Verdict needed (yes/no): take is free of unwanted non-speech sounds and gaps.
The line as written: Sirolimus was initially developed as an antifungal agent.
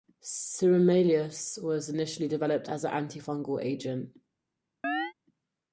no